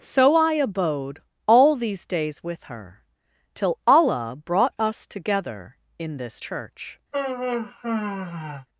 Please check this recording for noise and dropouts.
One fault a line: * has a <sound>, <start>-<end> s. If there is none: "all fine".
* has a sigh, 7.1-8.7 s